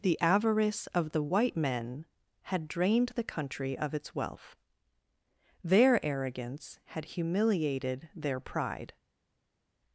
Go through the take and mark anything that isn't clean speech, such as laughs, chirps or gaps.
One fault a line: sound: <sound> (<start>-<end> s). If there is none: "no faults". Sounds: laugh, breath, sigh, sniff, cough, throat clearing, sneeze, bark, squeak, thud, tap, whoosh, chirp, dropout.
no faults